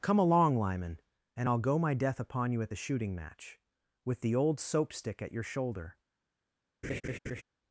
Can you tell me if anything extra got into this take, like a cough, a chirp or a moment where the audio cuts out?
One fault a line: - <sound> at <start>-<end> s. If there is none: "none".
- laugh at 6.8-7.4 s